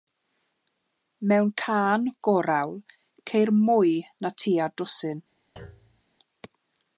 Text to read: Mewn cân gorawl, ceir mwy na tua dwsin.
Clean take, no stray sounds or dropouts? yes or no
no